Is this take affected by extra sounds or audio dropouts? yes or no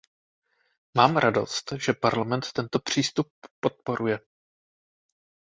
no